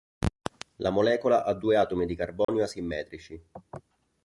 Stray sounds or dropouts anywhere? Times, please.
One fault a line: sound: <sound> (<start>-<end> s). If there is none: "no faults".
sound: dropout (2.4-2.5 s)